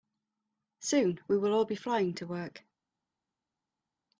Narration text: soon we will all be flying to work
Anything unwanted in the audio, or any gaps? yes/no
no